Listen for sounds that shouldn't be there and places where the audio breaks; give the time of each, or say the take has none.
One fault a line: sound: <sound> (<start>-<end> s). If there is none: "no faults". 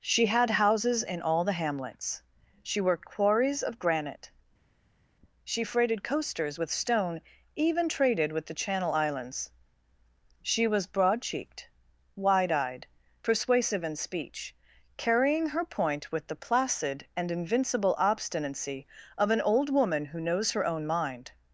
no faults